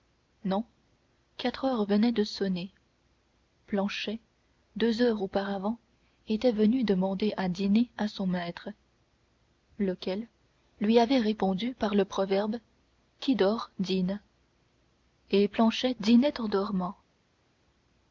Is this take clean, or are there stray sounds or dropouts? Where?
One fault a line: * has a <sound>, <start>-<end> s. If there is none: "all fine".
all fine